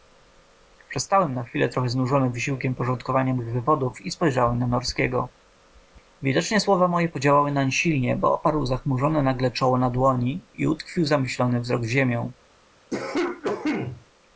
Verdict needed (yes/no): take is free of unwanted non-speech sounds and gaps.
no